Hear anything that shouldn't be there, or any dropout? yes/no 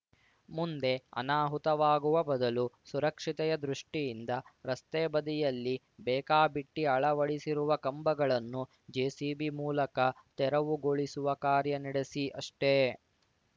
no